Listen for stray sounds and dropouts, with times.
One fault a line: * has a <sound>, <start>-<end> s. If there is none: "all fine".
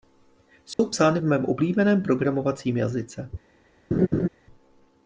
* has a dropout, 0.7-0.8 s
* has a laugh, 3.9-4.3 s